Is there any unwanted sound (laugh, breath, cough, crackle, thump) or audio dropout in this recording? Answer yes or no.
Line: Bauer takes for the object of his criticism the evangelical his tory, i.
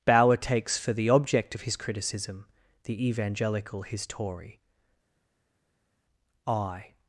no